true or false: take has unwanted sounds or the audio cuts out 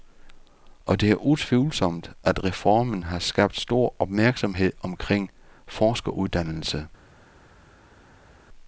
false